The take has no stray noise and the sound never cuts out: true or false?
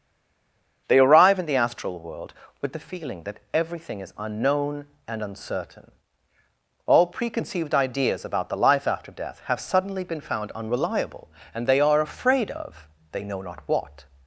true